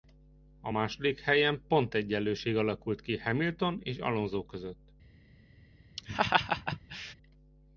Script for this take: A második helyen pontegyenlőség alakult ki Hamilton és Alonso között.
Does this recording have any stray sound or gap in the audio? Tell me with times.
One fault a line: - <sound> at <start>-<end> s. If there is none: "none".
- laugh at 6.0-7.1 s